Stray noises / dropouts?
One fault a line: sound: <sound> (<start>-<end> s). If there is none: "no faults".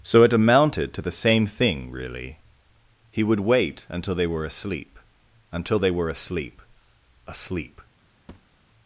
sound: thud (8.3-8.6 s)